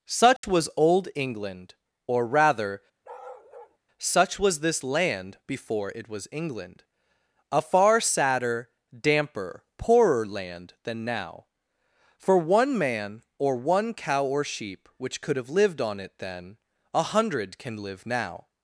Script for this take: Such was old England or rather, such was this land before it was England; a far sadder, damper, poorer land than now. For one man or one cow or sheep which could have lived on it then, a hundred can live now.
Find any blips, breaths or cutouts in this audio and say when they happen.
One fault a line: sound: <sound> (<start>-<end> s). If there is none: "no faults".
sound: dropout (0.4-0.4 s)
sound: bark (3.0-3.8 s)